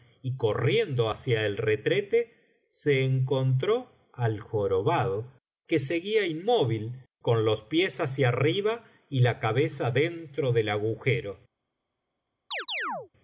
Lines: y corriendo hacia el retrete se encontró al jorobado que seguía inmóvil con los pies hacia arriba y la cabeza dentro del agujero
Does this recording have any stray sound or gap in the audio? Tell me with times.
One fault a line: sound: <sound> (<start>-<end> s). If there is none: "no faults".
sound: chirp (12.5-13.1 s)